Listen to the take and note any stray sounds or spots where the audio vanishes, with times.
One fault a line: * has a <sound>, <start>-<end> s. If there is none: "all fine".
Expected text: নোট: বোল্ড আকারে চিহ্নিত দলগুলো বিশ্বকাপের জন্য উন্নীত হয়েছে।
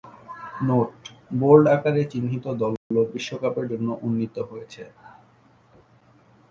* has a dropout, 2.8-2.9 s